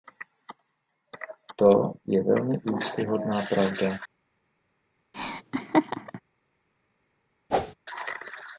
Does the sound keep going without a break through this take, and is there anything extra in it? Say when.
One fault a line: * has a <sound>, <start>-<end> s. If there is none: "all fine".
* has a laugh, 5.1-6.2 s
* has a whoosh, 7.5-7.7 s